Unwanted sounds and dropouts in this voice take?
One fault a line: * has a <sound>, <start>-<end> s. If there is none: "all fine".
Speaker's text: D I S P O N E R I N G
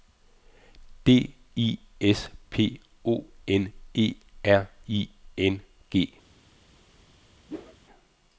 * has a whoosh, 7.5-7.8 s